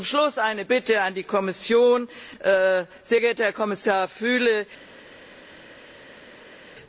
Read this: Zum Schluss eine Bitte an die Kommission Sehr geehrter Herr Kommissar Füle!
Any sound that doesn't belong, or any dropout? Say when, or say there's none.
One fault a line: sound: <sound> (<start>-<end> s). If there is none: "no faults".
no faults